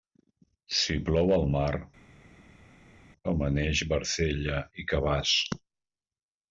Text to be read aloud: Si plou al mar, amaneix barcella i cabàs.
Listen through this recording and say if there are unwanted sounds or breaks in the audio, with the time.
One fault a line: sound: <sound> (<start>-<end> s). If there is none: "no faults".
no faults